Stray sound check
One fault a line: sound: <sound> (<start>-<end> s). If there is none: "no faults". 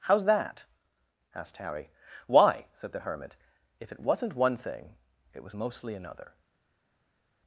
no faults